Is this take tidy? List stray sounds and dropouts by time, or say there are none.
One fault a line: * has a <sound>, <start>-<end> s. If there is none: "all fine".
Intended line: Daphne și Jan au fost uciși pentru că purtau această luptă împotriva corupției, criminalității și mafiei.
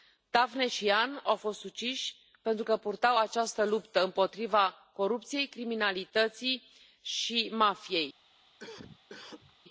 * has a cough, 8.6-9.6 s